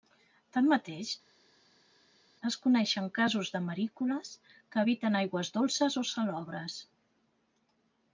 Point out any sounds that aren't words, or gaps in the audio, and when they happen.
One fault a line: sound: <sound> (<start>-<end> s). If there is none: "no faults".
no faults